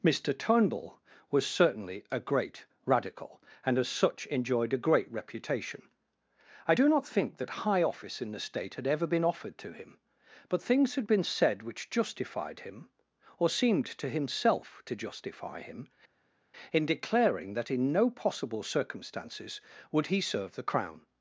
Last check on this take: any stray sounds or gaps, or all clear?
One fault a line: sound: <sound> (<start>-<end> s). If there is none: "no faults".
no faults